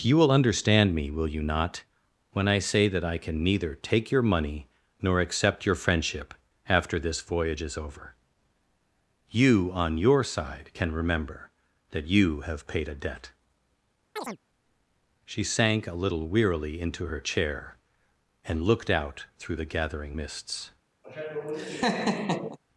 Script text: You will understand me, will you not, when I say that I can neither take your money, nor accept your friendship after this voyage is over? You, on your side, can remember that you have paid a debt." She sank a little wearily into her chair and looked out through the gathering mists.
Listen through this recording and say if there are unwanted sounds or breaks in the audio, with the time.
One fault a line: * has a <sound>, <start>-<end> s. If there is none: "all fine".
* has a chirp, 14.2-14.4 s
* has a laugh, 21.0-22.6 s